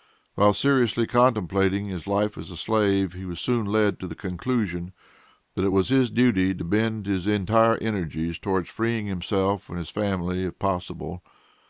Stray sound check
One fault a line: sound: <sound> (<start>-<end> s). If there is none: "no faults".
no faults